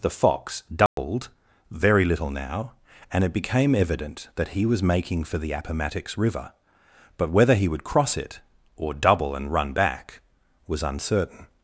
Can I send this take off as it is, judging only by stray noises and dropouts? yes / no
no